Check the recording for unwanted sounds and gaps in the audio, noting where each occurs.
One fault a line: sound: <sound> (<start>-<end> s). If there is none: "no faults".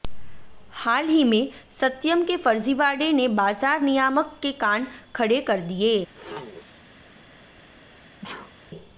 sound: throat clearing (6.1-7.1 s)
sound: sneeze (8.2-8.5 s)